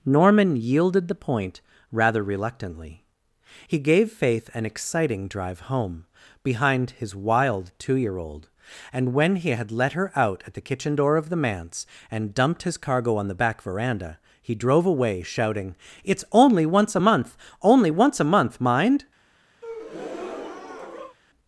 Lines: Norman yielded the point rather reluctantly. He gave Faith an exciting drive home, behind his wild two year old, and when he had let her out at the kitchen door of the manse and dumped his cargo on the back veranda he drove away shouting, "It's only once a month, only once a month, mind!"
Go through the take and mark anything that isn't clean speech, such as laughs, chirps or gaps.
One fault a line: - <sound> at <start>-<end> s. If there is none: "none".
- breath at 19.6-21.2 s